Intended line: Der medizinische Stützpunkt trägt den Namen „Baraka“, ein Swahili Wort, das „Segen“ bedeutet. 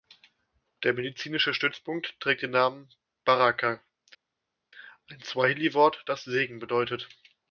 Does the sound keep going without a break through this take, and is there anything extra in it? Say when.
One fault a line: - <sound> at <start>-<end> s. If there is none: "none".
none